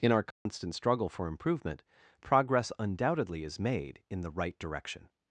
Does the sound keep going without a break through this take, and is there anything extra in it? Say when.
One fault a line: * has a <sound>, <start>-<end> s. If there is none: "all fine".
* has a dropout, 0.3-0.5 s